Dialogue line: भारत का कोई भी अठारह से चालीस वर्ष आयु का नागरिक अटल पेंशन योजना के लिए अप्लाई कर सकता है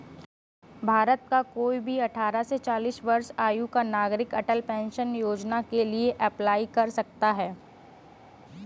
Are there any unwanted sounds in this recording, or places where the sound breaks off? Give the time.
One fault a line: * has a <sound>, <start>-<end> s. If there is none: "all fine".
all fine